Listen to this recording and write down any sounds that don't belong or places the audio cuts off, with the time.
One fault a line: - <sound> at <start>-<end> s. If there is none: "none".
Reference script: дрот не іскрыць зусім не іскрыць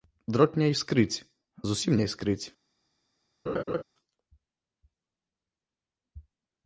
- laugh at 3.5-3.8 s